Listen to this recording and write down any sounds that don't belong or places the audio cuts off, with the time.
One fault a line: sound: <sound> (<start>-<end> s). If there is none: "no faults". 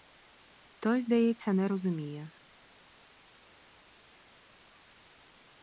no faults